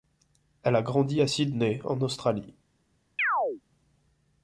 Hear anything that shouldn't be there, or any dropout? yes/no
yes